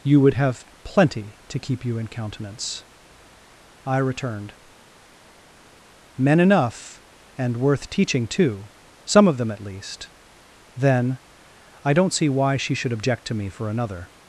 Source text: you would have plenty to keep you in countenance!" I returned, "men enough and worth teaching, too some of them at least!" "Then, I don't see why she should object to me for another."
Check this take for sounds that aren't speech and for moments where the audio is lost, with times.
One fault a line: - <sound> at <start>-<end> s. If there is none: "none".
none